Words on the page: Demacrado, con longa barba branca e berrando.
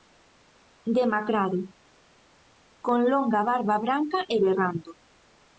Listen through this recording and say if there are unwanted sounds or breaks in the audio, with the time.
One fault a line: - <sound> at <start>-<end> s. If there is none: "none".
none